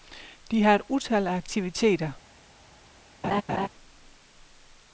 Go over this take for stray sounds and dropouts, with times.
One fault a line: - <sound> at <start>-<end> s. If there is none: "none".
- laugh at 3.2-3.7 s